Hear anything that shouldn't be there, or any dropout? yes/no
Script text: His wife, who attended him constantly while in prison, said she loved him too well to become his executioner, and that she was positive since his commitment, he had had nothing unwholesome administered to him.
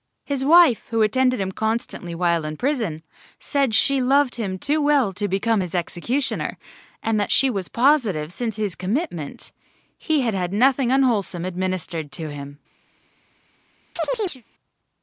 yes